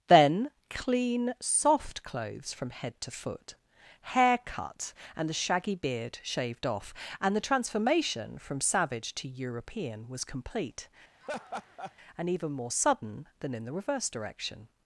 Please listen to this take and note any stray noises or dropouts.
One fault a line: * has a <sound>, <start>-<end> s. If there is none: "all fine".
* has a laugh, 11.2-11.9 s